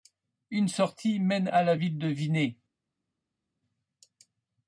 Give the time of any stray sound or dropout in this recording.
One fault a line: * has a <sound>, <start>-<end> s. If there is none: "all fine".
all fine